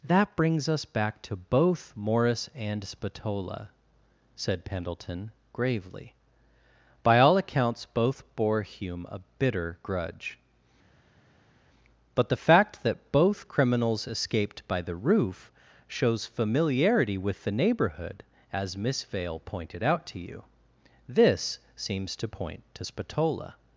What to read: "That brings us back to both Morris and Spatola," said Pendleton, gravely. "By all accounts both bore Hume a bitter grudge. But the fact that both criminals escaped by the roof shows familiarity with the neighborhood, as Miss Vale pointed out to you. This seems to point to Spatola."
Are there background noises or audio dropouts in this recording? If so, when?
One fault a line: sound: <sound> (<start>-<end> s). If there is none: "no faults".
no faults